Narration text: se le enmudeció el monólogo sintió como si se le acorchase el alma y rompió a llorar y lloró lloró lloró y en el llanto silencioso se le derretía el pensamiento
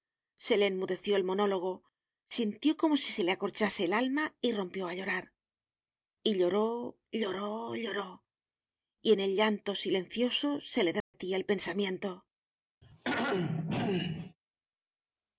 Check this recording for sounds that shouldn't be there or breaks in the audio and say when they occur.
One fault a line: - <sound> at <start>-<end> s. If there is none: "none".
- dropout at 11.0-11.1 s
- throat clearing at 12.8-14.4 s